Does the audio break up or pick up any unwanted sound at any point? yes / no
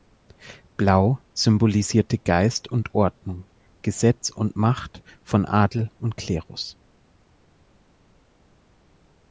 no